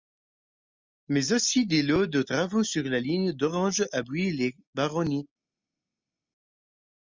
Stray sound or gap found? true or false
false